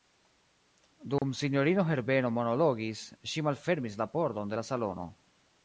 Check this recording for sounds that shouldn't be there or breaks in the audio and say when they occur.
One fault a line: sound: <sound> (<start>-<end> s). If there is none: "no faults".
sound: dropout (1.2-1.2 s)